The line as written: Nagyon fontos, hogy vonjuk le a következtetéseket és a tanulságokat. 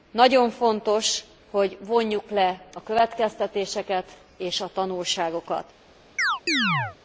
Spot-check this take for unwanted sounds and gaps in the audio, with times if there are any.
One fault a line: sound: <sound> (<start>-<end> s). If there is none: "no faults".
sound: chirp (6.2-7.0 s)